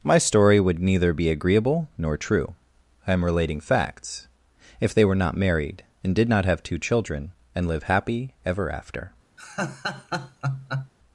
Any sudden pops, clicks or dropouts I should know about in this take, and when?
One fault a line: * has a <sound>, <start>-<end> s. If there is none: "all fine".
* has a laugh, 9.4-10.9 s